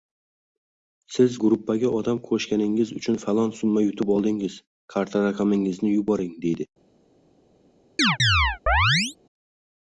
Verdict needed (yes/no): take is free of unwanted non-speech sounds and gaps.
no